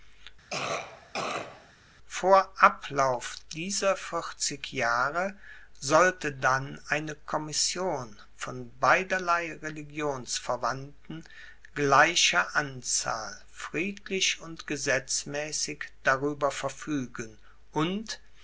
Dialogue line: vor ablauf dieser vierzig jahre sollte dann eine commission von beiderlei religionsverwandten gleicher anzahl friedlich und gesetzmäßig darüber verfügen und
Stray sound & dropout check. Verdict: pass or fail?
fail